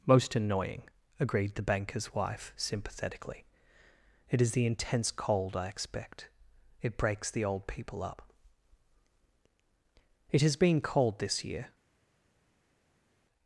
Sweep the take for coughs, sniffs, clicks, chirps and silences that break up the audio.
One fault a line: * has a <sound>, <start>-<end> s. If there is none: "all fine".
all fine